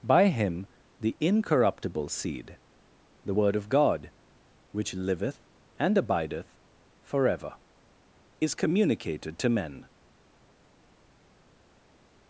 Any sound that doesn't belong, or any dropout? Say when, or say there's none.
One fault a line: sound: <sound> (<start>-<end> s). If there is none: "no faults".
no faults